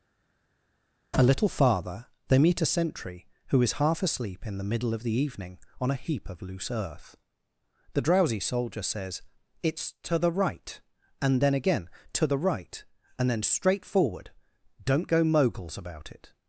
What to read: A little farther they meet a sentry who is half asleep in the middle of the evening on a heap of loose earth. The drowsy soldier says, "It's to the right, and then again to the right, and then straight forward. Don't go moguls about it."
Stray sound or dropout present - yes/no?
no